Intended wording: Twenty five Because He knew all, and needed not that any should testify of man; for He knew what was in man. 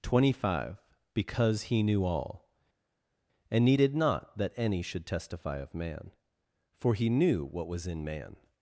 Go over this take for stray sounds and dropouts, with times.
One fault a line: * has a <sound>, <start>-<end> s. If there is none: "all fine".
all fine